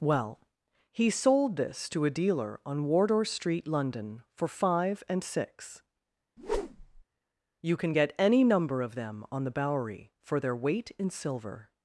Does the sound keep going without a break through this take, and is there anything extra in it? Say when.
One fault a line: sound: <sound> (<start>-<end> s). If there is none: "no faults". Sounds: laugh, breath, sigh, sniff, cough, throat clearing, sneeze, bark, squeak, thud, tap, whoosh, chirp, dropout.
sound: whoosh (6.4-7.0 s)